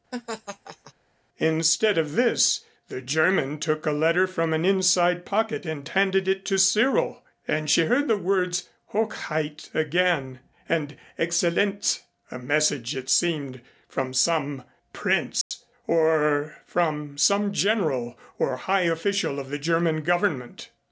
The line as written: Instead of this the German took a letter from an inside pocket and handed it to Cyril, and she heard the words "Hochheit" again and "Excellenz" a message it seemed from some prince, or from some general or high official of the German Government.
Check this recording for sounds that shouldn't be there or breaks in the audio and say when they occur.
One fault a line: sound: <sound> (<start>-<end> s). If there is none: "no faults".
sound: laugh (0.1-0.9 s)
sound: dropout (15.4-15.5 s)